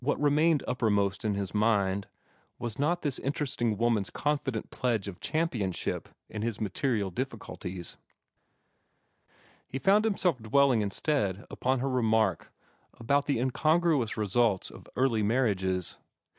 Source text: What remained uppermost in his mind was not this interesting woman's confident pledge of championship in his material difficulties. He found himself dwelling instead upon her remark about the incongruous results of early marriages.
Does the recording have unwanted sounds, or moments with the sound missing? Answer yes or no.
no